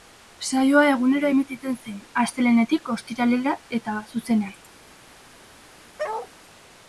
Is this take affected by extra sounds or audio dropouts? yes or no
yes